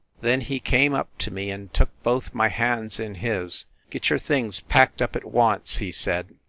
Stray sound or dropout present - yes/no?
no